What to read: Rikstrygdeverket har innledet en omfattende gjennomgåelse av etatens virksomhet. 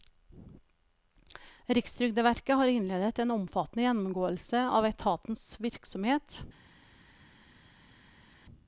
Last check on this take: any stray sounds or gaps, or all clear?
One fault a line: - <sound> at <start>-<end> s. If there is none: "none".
none